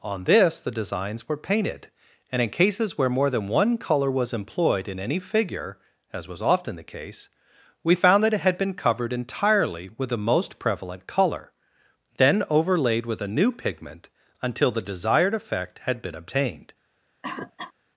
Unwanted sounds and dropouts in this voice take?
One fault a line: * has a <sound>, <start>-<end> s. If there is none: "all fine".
* has a cough, 17.2-17.7 s